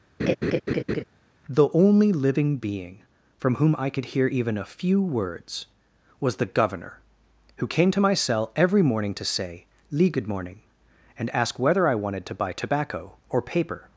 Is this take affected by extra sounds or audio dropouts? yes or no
yes